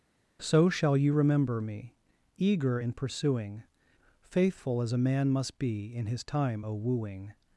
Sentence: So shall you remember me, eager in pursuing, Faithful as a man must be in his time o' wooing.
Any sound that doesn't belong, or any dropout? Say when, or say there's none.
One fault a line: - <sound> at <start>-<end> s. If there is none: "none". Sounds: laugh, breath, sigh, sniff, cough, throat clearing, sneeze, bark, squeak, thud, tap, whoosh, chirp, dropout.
none